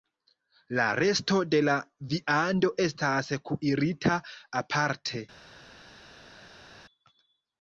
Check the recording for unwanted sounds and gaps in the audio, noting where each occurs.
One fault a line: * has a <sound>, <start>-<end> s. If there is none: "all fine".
all fine